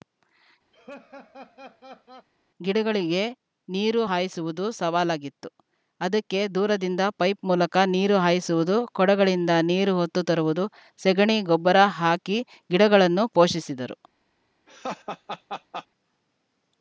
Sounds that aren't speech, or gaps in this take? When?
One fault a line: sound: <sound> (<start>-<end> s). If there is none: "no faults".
sound: laugh (0.7-2.3 s)
sound: laugh (14.7-15.9 s)